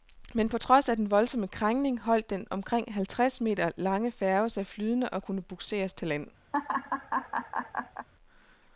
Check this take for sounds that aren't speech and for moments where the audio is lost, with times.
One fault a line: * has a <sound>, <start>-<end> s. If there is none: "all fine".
* has a laugh, 6.5-8.1 s